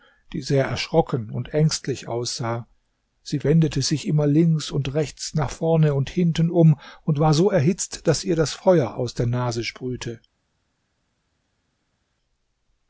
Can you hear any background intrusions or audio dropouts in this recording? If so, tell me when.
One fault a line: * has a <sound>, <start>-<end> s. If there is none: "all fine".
all fine